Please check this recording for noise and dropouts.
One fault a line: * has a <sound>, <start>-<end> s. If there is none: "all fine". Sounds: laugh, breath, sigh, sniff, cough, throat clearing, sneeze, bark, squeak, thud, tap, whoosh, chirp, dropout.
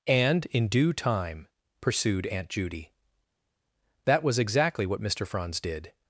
all fine